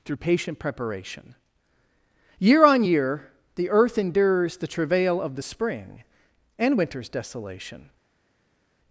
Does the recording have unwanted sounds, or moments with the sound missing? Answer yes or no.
no